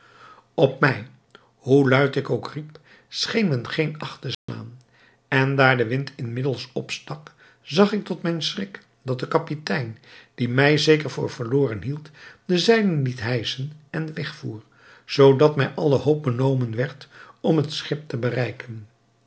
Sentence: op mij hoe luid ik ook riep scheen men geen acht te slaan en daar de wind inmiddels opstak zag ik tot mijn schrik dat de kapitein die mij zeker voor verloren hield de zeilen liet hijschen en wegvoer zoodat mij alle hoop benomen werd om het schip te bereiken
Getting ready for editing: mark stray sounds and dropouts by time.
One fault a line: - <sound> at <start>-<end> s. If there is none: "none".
- dropout at 4.3-4.5 s